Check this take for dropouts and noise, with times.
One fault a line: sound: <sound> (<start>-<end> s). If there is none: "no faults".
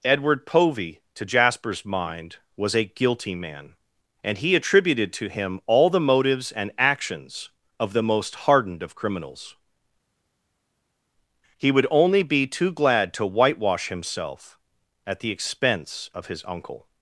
no faults